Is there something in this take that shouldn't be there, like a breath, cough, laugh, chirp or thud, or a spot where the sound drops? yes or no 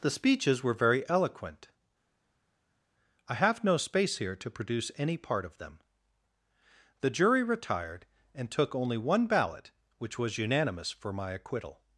no